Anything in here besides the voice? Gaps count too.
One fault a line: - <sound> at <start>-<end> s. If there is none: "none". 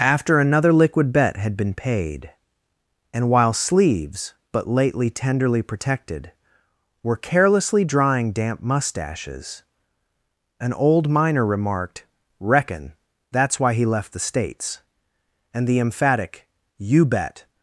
none